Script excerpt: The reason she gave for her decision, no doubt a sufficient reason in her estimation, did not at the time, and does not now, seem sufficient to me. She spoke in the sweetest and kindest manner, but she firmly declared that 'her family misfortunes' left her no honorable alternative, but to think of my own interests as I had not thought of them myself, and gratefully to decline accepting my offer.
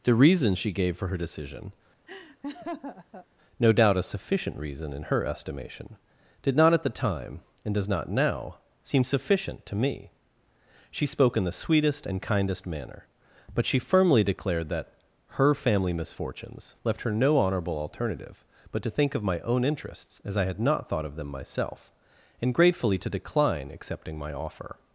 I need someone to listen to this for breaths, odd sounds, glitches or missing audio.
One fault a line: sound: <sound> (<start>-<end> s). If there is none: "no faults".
sound: laugh (2.1-3.3 s)